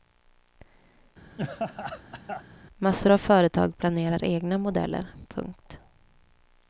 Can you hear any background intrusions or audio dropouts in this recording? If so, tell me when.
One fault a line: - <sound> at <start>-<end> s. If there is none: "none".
- laugh at 1.4-2.4 s